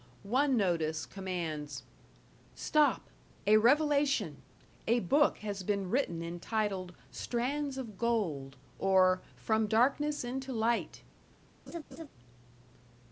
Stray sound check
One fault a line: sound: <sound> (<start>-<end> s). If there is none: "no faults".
sound: laugh (11.7-12.1 s)